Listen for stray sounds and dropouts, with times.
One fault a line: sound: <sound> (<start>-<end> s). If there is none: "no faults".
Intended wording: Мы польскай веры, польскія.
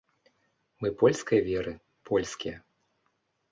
no faults